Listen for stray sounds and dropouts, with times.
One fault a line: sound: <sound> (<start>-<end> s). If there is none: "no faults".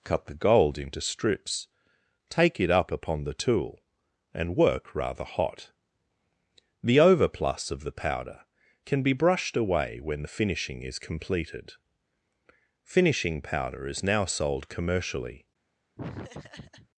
sound: laugh (16.0-16.9 s)